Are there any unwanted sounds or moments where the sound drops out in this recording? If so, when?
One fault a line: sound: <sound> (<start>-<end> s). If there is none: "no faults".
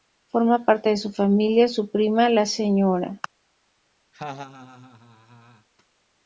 sound: laugh (4.1-5.7 s)